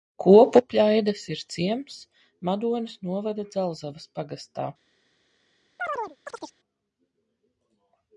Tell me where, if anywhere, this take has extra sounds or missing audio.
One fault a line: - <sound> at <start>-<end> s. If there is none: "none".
- chirp at 5.8-6.6 s